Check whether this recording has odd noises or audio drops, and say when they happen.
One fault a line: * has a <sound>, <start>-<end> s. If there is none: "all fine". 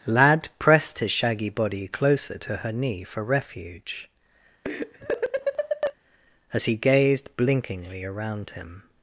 * has a laugh, 4.6-5.9 s